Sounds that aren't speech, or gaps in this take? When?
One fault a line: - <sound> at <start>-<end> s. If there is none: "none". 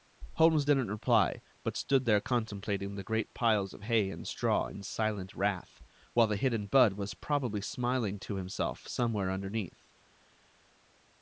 none